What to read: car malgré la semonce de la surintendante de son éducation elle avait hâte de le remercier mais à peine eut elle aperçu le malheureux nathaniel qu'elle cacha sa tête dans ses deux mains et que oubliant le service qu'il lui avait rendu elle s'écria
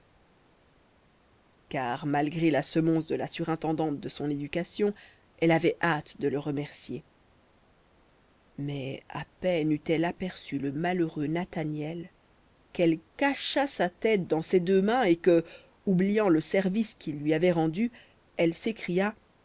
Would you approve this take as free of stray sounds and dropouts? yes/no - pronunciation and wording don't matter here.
yes